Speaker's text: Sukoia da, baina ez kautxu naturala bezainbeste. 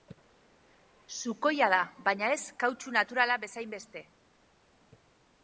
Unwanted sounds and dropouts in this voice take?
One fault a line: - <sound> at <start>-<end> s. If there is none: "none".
none